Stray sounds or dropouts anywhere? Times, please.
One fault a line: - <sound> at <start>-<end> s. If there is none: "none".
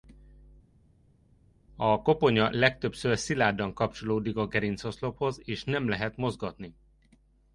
none